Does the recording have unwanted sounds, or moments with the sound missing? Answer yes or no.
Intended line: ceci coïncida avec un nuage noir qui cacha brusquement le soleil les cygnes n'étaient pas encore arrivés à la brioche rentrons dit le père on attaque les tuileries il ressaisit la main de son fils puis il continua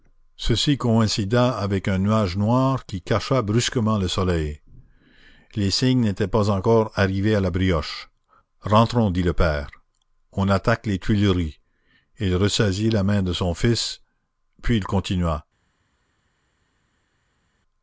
no